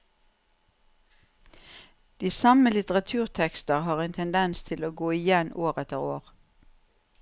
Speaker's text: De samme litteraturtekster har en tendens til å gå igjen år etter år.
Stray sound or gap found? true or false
false